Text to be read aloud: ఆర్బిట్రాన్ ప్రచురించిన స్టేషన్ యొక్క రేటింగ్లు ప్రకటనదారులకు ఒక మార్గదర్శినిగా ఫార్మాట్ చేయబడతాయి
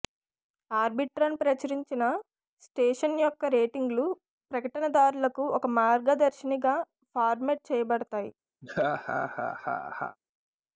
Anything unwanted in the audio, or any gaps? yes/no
yes